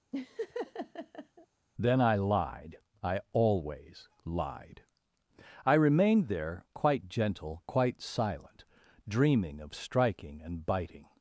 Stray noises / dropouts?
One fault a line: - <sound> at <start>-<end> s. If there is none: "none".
- laugh at 0.1-1.5 s